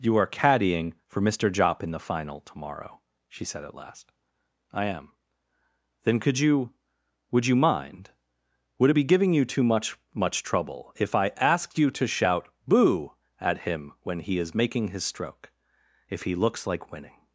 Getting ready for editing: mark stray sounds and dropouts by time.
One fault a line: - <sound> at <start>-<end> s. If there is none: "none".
none